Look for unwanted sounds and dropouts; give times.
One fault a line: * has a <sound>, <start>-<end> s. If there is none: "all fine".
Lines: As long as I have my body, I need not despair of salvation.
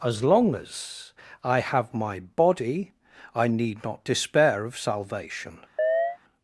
* has a chirp, 5.8-6.2 s